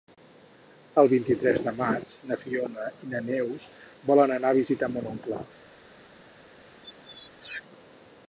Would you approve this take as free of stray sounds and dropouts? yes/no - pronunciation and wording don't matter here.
no